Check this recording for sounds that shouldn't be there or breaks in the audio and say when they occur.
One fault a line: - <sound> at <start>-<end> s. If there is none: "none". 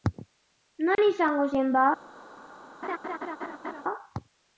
- dropout at 0.9-1.0 s
- laugh at 2.8-3.8 s